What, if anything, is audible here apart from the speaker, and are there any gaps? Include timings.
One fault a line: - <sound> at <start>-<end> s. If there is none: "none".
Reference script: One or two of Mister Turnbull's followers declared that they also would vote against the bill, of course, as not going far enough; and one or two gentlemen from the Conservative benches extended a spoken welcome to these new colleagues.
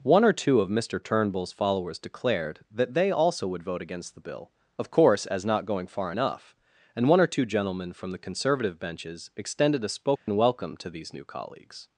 - dropout at 10.2-10.3 s